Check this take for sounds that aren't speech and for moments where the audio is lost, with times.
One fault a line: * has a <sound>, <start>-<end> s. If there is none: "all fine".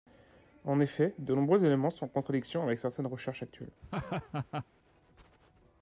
* has a laugh, 3.8-4.7 s